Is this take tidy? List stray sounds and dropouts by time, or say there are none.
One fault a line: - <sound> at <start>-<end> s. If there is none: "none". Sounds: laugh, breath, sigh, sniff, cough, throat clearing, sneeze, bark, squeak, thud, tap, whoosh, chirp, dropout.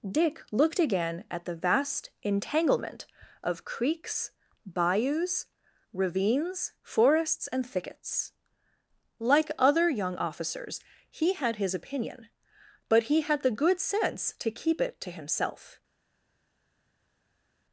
none